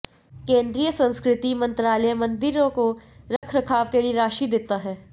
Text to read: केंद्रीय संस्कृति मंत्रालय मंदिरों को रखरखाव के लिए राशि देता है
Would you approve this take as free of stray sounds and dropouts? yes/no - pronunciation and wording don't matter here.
no